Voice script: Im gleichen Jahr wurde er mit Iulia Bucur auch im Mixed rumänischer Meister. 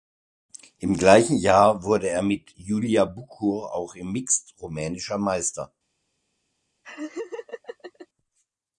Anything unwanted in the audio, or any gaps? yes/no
yes